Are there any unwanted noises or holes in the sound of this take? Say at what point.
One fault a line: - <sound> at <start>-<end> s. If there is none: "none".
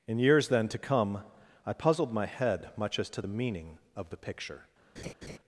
- laugh at 5.0-5.4 s